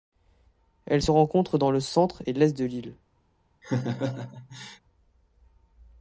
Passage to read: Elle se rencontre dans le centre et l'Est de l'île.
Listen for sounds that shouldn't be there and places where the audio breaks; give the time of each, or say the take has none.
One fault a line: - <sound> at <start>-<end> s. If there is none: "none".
- laugh at 3.6-4.8 s